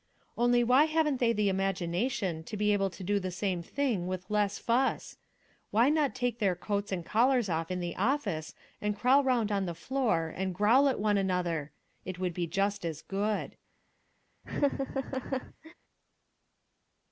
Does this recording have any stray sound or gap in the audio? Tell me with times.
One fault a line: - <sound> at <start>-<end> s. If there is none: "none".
- laugh at 14.4-15.7 s